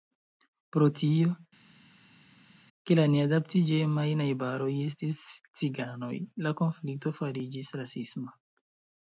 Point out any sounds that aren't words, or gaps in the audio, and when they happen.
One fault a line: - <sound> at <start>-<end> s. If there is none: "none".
none